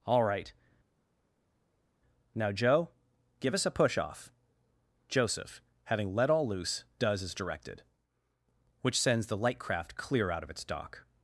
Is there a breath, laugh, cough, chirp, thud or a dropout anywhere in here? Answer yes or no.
no